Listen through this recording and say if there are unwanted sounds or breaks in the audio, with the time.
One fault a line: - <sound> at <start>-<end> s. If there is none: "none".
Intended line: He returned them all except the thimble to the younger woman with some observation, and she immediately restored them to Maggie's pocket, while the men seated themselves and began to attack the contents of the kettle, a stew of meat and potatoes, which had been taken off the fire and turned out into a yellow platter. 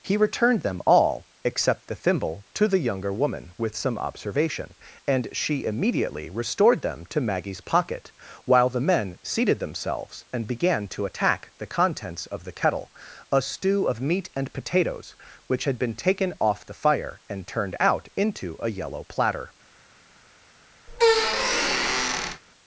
- squeak at 20.9-22.4 s